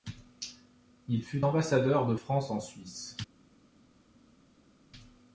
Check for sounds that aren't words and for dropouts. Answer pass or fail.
pass